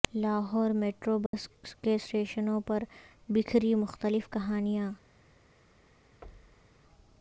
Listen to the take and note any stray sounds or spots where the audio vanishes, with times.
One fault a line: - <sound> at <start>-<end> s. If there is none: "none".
- dropout at 1.3-1.3 s
- thud at 6.2-6.8 s